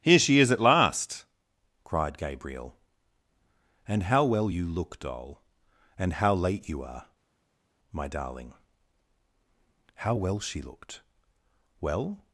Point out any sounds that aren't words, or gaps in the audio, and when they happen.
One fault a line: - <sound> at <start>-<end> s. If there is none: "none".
none